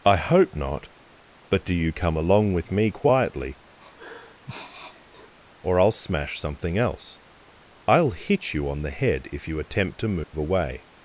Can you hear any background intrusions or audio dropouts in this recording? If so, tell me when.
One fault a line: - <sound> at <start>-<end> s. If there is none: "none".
- sniff at 3.8-5.3 s
- dropout at 10.2-10.3 s